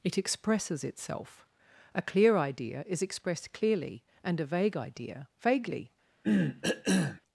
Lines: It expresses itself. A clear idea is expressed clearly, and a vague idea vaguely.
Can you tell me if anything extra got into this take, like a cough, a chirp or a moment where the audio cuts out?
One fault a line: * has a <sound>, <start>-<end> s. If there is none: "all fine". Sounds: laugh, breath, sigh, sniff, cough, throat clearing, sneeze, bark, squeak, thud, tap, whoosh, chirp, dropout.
* has a cough, 6.2-7.2 s